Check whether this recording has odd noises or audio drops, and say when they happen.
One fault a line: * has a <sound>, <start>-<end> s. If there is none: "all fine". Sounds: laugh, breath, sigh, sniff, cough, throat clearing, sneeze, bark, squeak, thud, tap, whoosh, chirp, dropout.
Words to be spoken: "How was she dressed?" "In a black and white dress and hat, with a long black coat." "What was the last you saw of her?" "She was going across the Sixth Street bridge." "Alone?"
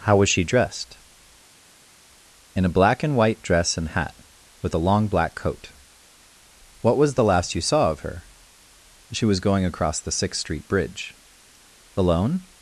all fine